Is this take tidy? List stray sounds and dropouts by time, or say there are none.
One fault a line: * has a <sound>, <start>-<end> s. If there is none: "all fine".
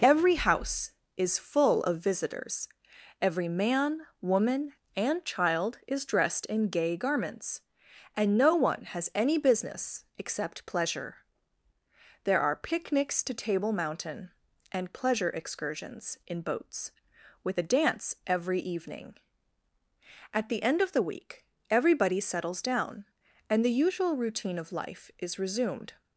all fine